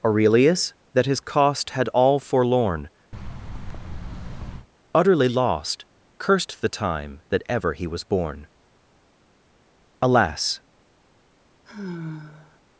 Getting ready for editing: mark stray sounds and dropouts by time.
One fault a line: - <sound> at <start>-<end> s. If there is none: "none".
- thud at 3.1-4.7 s
- sigh at 11.7-12.6 s